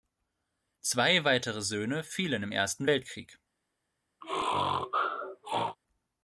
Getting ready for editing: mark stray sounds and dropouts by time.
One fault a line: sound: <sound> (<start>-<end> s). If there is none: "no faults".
sound: sneeze (4.2-5.8 s)